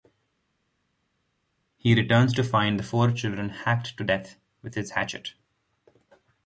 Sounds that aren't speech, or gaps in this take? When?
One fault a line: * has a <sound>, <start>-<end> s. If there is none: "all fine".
all fine